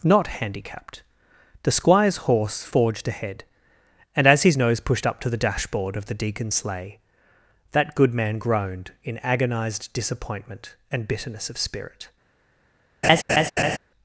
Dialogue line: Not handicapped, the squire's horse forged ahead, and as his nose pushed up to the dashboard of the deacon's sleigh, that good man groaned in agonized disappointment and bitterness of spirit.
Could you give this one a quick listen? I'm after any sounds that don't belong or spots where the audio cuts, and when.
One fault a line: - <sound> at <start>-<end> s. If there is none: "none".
- laugh at 13.0-13.8 s